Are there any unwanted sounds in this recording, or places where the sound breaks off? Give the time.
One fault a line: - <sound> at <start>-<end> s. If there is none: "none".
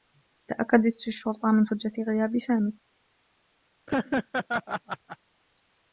- laugh at 3.9-5.2 s